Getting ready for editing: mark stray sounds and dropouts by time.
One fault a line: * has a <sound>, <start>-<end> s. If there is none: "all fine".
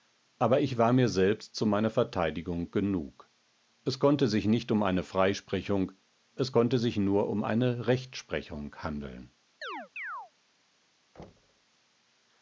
* has a chirp, 9.6-10.3 s
* has a thud, 11.2-11.7 s